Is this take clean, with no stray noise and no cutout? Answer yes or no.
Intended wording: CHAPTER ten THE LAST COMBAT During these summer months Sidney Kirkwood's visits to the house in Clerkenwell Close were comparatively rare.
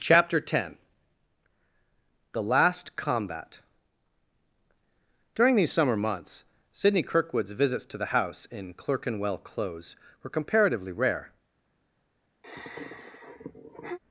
no